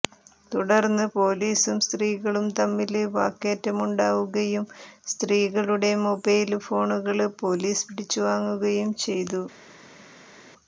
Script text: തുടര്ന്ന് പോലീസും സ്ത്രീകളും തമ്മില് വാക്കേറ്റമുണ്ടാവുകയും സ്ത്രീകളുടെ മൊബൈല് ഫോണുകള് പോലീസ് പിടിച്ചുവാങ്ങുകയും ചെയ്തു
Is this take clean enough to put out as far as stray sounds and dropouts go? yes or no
yes